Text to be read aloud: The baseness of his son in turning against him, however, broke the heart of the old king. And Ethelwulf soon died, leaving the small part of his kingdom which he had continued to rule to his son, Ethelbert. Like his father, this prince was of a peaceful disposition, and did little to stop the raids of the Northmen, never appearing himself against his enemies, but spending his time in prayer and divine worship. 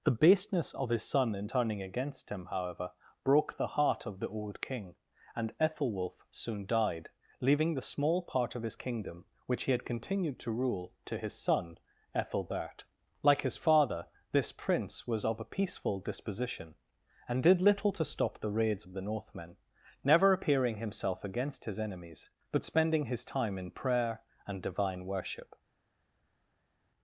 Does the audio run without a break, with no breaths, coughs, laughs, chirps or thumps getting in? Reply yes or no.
yes